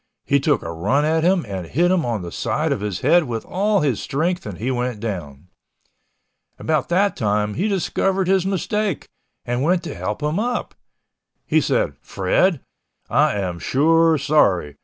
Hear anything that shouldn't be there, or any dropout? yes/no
no